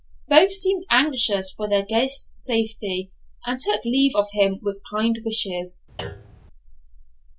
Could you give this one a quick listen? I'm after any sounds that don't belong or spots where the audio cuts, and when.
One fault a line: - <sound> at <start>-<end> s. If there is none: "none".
- thud at 6.0-6.5 s